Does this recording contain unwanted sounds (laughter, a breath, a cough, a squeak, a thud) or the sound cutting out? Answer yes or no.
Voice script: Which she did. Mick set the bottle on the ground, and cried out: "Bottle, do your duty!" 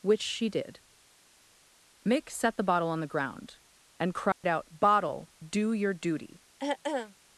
yes